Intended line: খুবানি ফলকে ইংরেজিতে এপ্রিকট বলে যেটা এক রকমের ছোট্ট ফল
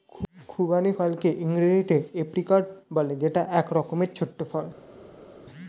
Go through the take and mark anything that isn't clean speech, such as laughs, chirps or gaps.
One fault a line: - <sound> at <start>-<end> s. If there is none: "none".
none